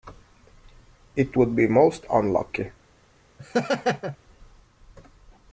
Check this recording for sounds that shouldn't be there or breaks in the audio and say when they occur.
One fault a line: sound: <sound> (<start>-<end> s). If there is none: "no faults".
sound: laugh (3.4-4.2 s)